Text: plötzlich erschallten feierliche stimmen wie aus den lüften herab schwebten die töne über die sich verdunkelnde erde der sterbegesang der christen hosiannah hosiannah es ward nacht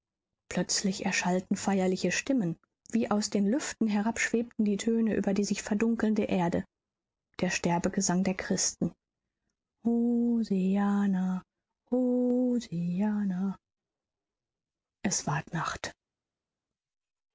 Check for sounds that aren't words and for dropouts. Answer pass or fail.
pass